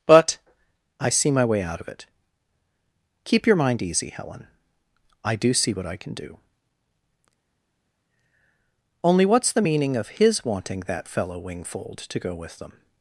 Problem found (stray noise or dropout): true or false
false